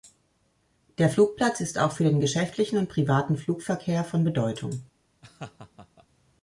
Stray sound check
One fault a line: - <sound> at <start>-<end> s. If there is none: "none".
- laugh at 5.2-6.1 s